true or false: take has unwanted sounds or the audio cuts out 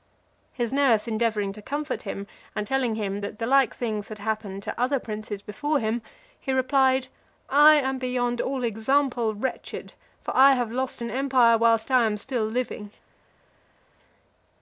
false